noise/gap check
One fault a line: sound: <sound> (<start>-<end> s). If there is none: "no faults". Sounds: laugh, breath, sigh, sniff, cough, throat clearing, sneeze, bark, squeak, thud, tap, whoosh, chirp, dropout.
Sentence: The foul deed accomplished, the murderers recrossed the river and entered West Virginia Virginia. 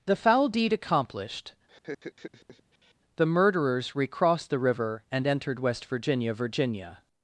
sound: laugh (1.7-2.9 s)